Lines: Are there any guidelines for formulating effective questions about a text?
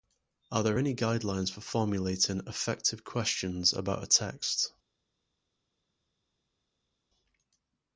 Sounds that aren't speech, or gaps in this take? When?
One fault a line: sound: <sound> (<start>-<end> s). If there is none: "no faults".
no faults